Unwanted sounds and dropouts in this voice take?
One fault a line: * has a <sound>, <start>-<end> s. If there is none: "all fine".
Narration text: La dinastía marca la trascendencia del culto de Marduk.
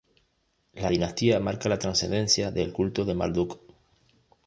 all fine